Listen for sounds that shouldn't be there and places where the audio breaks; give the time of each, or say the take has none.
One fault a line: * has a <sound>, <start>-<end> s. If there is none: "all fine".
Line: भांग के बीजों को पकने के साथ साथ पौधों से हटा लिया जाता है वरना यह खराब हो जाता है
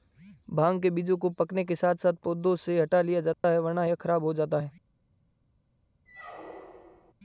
* has a dropout, 3.3-3.4 s
* has a squeak, 6.1-7.1 s